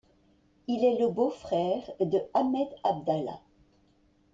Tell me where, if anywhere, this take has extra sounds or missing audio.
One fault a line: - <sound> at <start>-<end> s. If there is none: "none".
none